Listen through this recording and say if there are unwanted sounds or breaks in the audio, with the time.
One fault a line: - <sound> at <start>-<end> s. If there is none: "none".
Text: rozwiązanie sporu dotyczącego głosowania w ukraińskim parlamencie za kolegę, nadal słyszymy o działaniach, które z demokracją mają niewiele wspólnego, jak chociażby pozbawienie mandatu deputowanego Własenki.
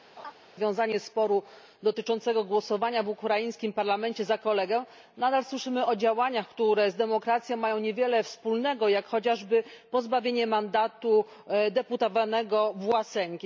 - laugh at 0.2-0.3 s